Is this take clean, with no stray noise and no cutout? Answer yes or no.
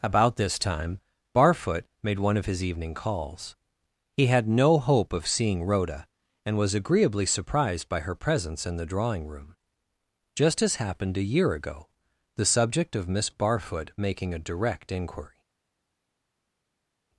yes